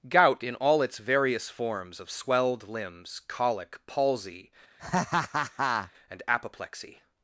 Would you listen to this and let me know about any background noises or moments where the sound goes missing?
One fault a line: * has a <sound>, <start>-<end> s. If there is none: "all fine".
* has a laugh, 4.8-5.9 s